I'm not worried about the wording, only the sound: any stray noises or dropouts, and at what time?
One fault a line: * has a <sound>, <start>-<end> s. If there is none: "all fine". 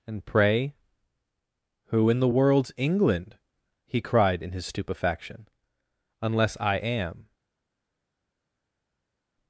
all fine